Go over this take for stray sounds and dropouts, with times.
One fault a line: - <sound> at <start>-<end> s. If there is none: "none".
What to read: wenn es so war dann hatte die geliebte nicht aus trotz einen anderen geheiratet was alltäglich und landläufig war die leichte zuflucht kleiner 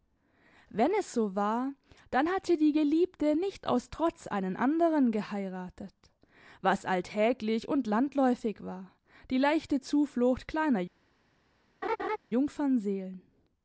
- laugh at 11.8-12.2 s